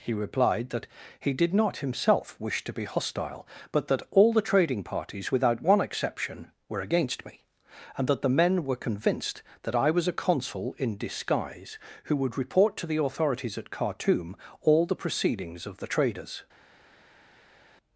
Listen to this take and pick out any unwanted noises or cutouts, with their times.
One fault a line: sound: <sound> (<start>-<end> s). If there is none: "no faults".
no faults